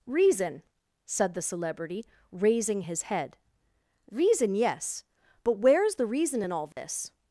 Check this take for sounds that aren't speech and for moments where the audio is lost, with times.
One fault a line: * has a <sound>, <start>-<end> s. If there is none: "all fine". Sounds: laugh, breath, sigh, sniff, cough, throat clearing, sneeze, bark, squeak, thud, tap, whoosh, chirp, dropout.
* has a dropout, 6.7-6.8 s